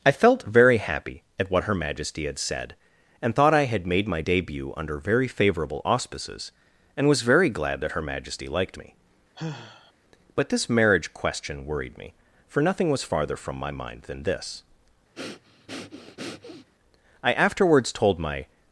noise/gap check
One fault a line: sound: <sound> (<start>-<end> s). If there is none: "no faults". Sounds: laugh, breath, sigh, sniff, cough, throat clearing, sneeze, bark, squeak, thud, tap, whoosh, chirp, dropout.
sound: sigh (9.3-9.9 s)
sound: breath (15.1-16.7 s)